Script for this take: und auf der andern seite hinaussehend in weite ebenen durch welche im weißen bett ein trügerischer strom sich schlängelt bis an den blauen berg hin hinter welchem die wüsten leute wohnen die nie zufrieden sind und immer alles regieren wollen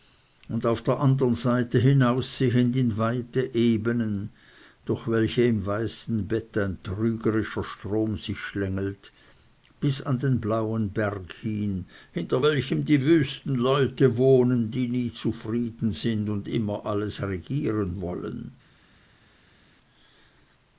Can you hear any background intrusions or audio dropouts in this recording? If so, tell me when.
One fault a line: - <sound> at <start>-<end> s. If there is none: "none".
none